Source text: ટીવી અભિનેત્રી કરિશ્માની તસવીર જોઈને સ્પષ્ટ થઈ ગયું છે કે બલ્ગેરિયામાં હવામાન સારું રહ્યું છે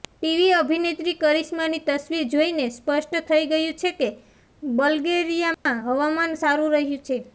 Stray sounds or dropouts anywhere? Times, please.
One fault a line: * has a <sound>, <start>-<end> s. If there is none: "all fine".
* has a dropout, 5.5-5.7 s